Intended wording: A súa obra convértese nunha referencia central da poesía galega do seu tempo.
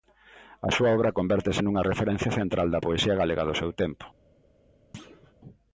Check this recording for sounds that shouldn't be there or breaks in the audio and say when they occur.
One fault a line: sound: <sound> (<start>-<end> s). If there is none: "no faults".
sound: thud (4.9-5.3 s)